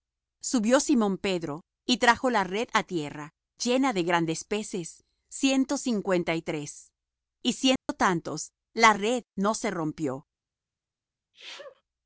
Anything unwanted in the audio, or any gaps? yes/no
yes